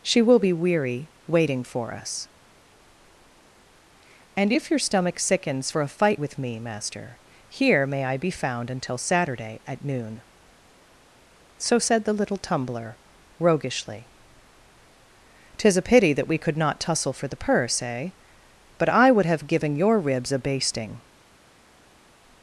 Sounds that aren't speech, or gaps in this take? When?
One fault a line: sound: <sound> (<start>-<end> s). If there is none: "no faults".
no faults